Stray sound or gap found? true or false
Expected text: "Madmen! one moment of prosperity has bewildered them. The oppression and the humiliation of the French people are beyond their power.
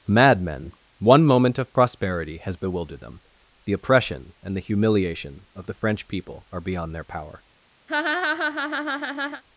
true